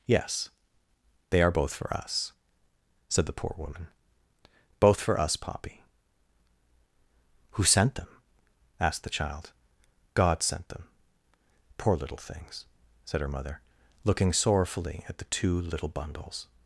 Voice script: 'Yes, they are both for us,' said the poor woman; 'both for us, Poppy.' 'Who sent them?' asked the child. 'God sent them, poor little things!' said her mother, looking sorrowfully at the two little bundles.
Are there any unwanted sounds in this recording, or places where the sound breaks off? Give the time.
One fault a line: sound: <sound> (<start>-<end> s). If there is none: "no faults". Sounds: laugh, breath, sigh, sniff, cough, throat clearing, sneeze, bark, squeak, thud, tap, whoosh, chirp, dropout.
no faults